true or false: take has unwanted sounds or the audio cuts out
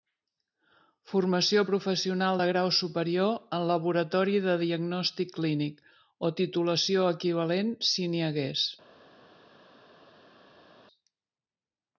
false